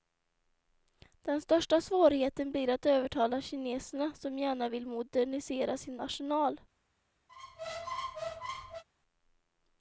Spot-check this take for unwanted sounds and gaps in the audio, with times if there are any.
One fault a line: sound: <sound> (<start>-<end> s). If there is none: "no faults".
sound: squeak (7.3-8.8 s)